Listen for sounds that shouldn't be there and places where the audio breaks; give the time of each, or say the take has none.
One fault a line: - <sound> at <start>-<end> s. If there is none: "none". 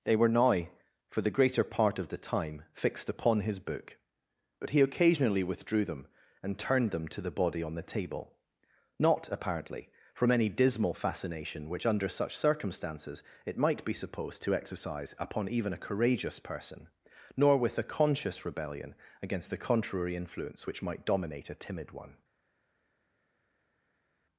none